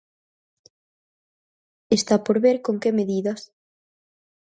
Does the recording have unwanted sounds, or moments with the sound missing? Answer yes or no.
no